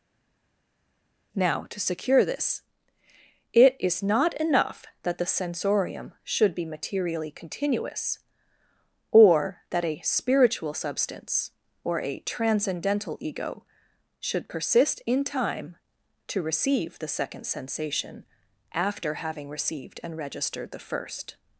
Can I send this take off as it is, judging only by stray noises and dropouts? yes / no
yes